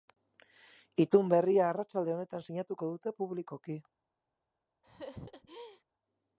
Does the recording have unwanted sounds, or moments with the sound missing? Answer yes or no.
yes